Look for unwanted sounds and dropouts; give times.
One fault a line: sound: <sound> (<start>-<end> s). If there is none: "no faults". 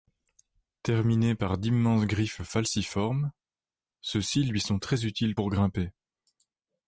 no faults